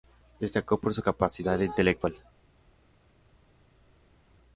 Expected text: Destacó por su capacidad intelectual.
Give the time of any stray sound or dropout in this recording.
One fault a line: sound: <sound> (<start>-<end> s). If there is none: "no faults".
no faults